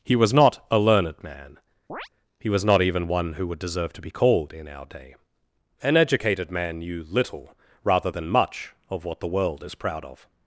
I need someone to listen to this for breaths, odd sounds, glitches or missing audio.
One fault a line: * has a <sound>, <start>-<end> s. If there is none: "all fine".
* has a chirp, 1.9-2.1 s